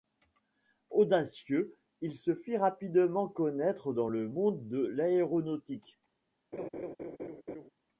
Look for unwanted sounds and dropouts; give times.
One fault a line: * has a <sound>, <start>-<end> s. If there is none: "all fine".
* has a laugh, 6.5-7.7 s